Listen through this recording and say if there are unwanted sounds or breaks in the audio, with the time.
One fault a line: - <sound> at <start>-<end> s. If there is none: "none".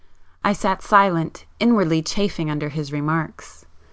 none